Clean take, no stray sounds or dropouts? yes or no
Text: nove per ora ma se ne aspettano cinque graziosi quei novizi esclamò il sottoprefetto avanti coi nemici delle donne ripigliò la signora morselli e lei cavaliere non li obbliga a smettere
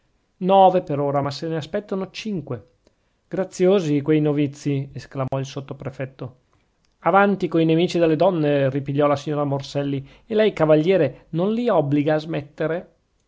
no